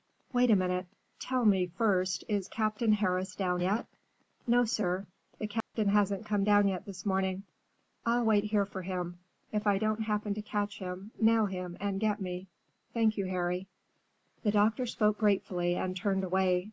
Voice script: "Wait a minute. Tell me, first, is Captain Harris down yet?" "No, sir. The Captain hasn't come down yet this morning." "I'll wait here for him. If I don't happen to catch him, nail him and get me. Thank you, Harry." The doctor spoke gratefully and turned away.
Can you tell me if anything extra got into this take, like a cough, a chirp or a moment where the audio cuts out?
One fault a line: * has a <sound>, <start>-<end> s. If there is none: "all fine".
* has a dropout, 5.6-5.7 s